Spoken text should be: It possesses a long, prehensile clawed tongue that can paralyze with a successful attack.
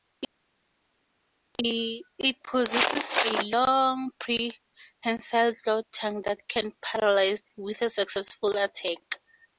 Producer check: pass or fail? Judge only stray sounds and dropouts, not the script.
pass